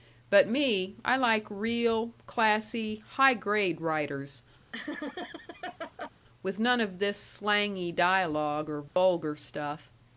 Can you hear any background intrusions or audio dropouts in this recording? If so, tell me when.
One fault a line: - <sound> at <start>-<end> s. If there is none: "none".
- laugh at 4.7-6.1 s
- dropout at 8.9-9.0 s